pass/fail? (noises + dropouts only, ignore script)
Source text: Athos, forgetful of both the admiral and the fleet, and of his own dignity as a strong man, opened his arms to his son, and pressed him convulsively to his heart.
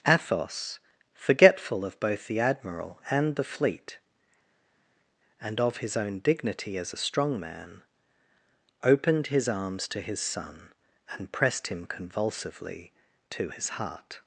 pass